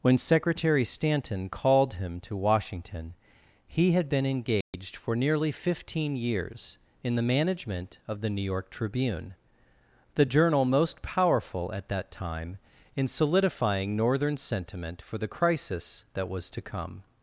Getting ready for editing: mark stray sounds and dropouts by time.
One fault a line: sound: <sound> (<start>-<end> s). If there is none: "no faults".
sound: dropout (4.6-4.7 s)